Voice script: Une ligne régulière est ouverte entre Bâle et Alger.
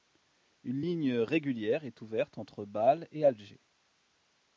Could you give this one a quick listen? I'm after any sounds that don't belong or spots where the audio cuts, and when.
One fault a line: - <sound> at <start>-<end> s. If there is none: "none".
none